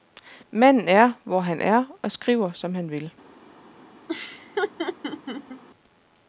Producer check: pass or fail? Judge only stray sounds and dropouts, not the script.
fail